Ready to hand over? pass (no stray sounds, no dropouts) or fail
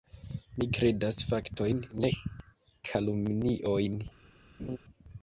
fail